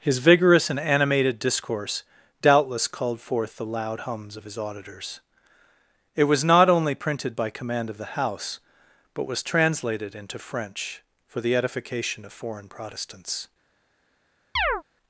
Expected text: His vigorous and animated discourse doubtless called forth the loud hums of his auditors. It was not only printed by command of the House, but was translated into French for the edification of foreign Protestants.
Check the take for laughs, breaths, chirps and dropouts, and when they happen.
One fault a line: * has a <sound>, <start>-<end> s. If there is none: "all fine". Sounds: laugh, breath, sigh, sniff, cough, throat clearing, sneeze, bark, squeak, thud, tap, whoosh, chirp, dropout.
* has a chirp, 14.6-14.8 s